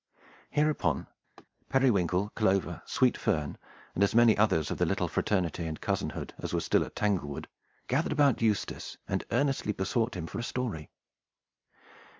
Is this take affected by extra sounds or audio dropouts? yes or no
yes